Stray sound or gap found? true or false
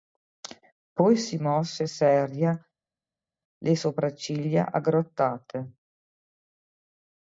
false